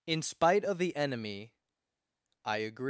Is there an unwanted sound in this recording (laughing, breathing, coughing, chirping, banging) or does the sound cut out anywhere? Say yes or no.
no